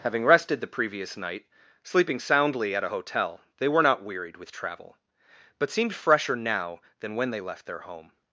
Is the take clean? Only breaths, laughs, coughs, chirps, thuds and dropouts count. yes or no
yes